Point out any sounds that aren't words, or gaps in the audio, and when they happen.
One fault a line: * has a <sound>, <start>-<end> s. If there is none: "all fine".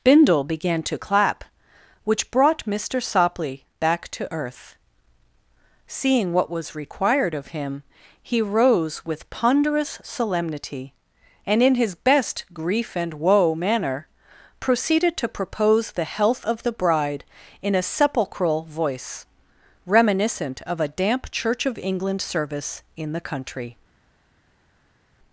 all fine